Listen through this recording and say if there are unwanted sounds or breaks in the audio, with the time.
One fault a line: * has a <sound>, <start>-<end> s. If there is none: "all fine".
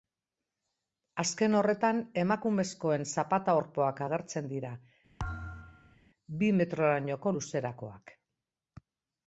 * has a thud, 5.2-6.0 s